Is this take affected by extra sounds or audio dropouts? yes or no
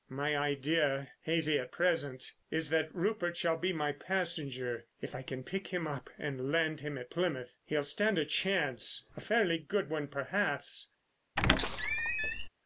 yes